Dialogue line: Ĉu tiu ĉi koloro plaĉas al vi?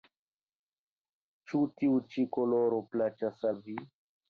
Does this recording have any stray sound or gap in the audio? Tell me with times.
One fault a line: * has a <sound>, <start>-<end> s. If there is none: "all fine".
all fine